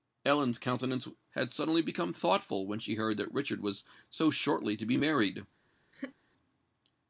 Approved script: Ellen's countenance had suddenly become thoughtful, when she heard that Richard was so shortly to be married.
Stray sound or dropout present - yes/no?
yes